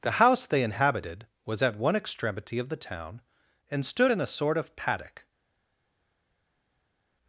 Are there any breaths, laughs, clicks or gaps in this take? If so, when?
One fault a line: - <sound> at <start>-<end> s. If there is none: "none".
none